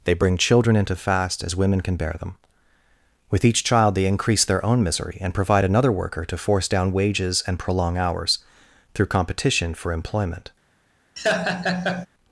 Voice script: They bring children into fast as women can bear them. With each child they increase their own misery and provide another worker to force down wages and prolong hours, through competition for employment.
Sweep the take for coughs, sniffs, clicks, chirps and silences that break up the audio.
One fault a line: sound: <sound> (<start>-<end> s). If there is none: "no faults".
sound: laugh (11.2-12.1 s)